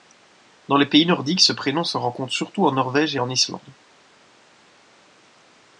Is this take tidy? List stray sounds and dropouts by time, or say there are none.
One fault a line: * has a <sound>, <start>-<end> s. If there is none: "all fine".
all fine